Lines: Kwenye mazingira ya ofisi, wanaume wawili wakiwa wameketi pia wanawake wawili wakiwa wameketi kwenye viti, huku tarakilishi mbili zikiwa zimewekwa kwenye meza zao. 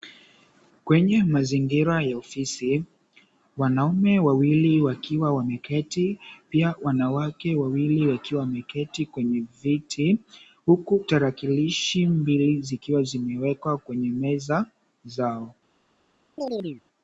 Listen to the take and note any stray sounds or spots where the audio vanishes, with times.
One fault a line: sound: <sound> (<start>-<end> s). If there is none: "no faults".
sound: chirp (16.4-16.8 s)